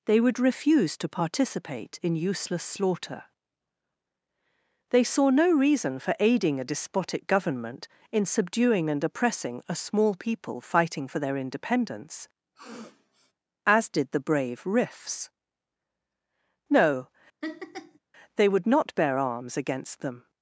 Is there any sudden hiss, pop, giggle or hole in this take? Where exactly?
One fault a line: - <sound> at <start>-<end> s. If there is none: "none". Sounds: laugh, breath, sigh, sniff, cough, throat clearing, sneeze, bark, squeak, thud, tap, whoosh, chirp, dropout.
- sniff at 12.5-13.3 s
- laugh at 17.4-18.0 s